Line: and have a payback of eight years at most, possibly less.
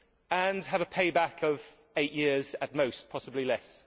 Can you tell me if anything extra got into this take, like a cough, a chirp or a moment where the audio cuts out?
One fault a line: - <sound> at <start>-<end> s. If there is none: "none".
none